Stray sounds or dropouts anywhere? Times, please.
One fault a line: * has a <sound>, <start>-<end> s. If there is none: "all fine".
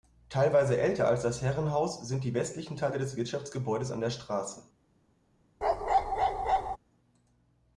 * has a bark, 5.6-6.8 s